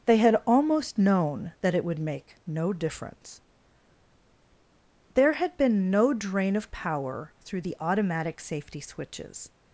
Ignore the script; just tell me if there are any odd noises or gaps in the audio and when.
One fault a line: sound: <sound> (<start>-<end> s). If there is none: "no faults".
no faults